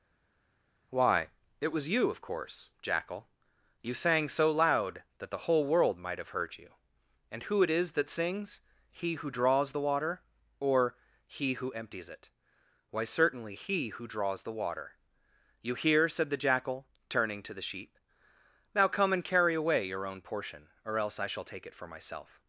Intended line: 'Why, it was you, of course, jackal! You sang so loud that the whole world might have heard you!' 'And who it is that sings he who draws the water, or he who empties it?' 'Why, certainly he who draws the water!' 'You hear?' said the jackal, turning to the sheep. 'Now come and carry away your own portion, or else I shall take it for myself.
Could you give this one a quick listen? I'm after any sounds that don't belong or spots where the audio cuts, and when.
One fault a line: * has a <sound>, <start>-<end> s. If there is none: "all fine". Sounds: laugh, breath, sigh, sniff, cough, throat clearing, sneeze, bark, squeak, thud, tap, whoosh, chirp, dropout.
all fine